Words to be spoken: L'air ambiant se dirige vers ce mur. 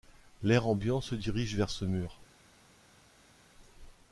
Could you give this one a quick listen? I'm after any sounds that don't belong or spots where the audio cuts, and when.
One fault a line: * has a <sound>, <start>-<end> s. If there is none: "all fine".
all fine